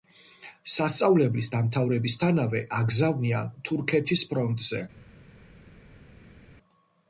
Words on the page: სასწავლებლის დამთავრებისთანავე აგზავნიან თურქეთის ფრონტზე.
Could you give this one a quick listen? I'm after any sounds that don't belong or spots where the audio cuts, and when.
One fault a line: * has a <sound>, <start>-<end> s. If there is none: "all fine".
all fine